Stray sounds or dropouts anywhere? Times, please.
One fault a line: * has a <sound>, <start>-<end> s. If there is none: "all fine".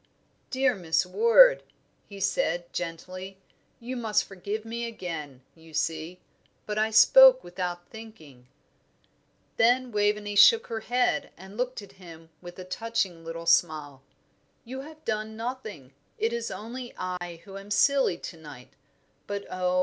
* has a dropout, 17.2-17.2 s